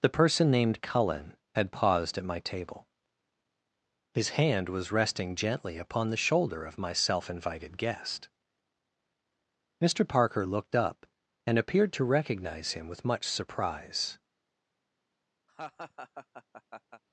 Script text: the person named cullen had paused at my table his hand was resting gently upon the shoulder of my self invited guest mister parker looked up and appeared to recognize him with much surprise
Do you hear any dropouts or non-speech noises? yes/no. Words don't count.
yes